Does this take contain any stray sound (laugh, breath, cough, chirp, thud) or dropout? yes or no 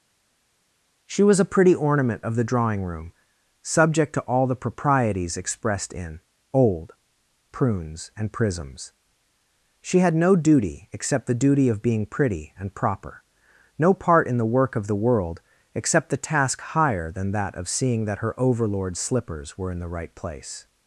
no